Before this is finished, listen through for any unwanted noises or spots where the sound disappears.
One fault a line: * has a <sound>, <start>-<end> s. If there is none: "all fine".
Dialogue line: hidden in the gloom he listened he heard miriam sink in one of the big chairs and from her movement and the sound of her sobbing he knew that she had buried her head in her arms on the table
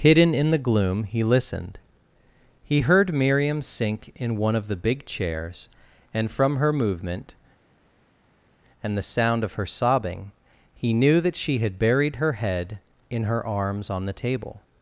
all fine